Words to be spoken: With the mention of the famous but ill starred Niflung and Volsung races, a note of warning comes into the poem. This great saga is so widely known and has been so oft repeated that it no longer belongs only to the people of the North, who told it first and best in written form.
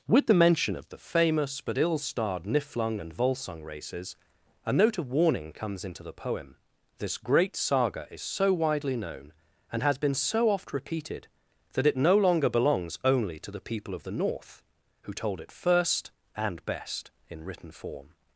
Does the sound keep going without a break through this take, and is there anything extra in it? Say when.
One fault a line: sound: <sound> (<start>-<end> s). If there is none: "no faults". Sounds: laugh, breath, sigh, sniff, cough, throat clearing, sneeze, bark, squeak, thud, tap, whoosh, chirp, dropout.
no faults